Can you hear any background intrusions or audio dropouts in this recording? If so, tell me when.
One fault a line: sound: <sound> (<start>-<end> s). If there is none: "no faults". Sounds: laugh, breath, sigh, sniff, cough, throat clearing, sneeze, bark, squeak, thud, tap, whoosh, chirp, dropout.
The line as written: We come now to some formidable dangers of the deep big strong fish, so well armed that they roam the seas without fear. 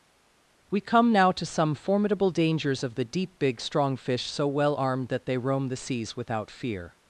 no faults